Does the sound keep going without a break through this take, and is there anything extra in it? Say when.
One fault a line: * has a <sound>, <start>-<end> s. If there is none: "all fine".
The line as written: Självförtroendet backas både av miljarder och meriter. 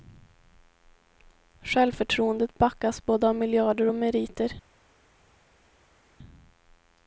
all fine